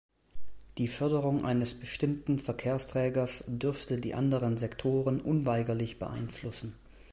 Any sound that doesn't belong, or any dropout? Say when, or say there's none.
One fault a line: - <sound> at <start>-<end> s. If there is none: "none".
none